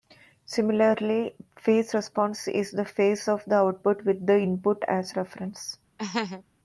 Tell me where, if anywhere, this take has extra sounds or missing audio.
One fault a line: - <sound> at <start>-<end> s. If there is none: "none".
- laugh at 6.0-6.4 s